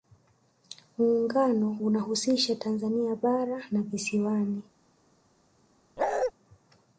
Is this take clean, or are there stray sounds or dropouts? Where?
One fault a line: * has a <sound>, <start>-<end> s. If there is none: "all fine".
* has a bark, 6.0-6.3 s